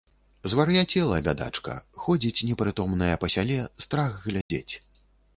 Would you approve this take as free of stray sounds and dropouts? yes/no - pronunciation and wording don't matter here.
no